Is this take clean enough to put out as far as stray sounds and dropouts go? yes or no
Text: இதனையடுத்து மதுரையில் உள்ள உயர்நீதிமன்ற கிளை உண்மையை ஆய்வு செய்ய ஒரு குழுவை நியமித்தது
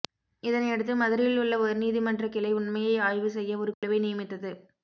no